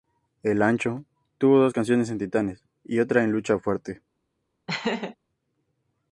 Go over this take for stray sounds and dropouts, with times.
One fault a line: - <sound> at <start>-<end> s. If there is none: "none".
- laugh at 4.7-5.2 s